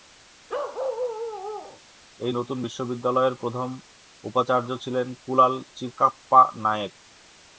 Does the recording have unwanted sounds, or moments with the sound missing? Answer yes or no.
yes